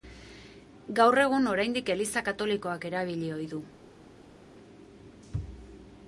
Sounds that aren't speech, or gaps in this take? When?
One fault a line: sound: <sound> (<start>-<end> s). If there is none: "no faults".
no faults